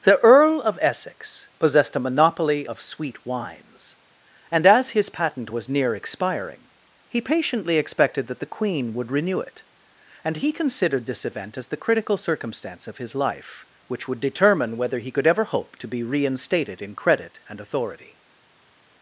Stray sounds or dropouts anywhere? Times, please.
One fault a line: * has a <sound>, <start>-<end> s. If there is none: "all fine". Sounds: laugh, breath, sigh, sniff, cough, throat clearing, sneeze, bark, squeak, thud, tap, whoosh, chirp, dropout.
all fine